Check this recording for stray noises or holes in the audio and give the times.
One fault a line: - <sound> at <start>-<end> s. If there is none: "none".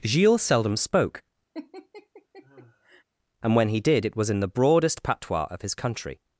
- laugh at 1.5-3.0 s